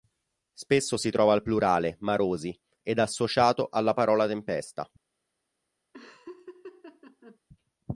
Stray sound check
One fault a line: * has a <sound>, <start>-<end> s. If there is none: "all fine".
* has a laugh, 5.9-7.4 s